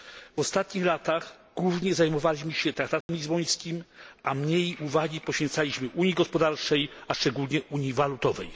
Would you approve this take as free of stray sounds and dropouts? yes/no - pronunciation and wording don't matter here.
no